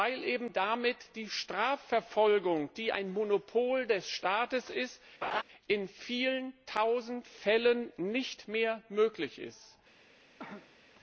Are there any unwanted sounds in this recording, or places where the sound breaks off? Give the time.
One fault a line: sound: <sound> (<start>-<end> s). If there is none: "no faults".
sound: laugh (5.2-5.4 s)
sound: cough (10.4-10.8 s)